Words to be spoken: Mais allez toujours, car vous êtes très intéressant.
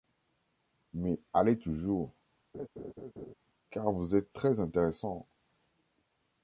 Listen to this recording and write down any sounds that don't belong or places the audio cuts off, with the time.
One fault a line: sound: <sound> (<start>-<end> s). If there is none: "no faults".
sound: laugh (2.5-3.3 s)